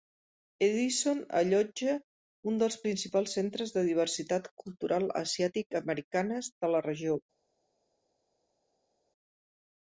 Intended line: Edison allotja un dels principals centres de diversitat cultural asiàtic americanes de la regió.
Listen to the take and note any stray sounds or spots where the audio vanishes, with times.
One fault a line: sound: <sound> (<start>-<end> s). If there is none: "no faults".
no faults